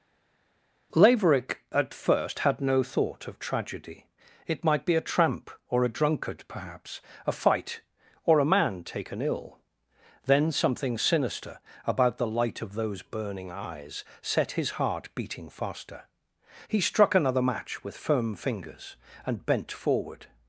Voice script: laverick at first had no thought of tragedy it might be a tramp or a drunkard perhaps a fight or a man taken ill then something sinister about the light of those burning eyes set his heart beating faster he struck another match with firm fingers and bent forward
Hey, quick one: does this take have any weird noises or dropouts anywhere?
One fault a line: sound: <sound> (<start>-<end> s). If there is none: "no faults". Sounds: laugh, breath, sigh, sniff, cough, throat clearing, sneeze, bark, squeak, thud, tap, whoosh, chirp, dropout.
no faults